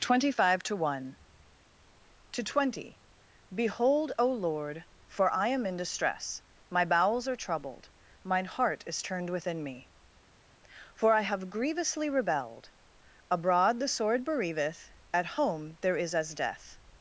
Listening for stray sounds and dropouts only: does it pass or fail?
pass